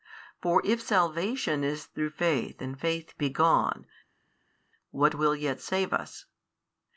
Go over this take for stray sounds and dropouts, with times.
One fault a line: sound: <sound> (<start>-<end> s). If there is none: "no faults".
no faults